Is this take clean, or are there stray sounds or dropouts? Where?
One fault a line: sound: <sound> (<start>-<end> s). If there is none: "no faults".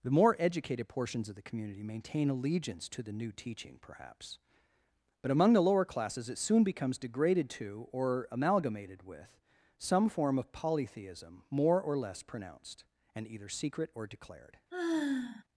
sound: sigh (14.7-15.4 s)